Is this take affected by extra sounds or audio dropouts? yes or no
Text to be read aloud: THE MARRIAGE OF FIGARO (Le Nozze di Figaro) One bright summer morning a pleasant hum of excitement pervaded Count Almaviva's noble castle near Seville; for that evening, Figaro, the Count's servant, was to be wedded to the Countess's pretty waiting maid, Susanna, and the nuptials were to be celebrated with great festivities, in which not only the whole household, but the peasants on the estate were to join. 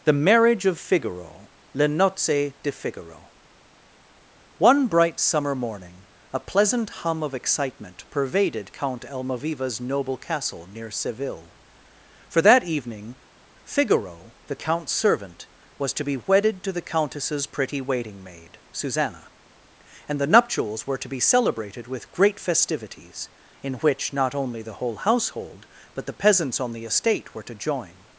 no